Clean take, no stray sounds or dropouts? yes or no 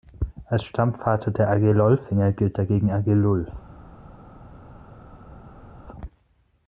yes